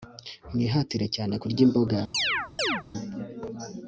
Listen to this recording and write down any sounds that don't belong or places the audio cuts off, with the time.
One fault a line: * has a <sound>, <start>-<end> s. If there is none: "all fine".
* has a chirp, 2.1-2.8 s